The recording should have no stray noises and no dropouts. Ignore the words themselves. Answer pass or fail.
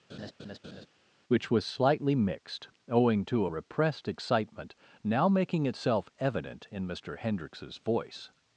fail